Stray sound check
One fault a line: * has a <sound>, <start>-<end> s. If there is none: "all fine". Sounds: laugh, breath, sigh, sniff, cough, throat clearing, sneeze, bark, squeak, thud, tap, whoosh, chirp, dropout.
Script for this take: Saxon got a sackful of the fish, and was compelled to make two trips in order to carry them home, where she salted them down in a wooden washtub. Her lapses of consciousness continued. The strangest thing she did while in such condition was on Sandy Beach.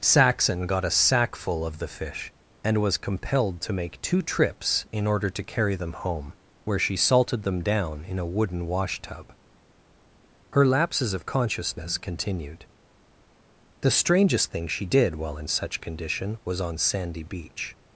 all fine